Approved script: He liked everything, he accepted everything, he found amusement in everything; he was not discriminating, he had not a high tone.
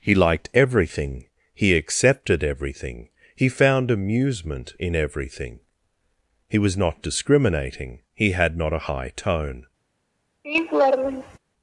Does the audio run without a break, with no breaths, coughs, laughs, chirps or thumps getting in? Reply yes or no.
no